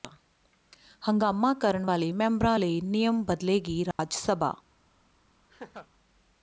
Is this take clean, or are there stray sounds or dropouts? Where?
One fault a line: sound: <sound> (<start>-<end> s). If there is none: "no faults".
sound: dropout (3.9-4.0 s)
sound: laugh (5.5-5.9 s)